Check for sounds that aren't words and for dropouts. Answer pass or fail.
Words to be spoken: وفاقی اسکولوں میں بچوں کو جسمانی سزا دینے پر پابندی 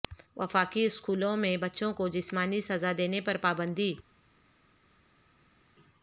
pass